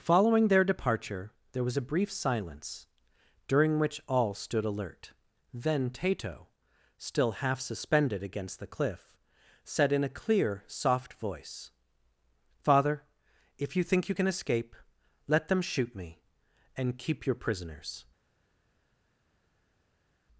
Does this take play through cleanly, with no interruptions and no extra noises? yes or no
yes